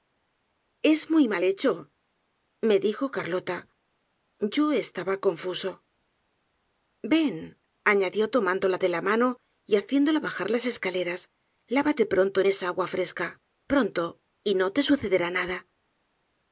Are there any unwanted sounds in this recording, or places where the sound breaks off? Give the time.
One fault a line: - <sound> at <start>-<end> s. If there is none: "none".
none